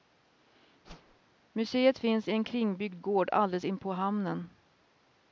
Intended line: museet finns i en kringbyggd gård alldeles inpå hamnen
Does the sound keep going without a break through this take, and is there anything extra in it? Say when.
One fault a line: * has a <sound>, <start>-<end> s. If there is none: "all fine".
* has a whoosh, 0.9-1.2 s